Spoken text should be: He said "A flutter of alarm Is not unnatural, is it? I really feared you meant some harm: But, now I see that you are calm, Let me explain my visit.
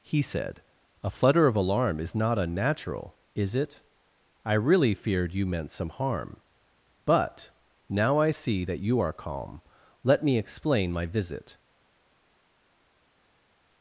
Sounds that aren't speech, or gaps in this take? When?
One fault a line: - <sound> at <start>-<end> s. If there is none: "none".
none